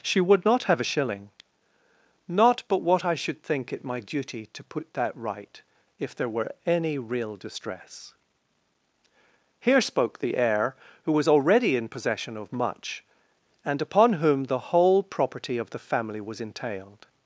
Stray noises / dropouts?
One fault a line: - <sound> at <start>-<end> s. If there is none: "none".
none